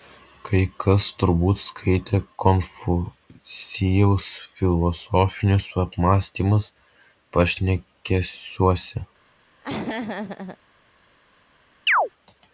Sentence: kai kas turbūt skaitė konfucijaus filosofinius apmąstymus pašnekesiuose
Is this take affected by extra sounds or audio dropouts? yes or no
yes